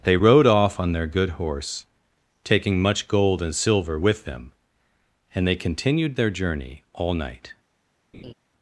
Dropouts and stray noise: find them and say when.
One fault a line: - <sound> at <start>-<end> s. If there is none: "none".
- laugh at 8.1-8.3 s